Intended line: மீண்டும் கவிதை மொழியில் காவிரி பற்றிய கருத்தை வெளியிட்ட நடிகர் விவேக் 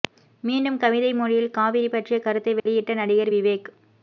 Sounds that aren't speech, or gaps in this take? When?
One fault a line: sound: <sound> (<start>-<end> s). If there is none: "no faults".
sound: dropout (2.6-2.7 s)